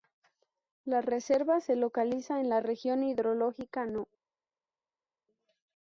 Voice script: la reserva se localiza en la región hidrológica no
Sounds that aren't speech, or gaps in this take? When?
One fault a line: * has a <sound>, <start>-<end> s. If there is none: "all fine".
all fine